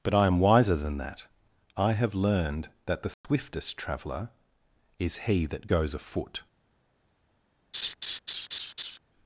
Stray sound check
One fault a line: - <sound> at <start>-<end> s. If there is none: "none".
- dropout at 3.1-3.2 s
- laugh at 7.7-9.0 s